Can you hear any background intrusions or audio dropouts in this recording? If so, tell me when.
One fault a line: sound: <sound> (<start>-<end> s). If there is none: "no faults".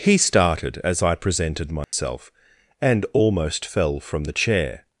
sound: dropout (1.8-1.9 s)